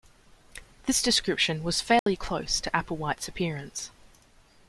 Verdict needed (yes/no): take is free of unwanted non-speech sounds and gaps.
no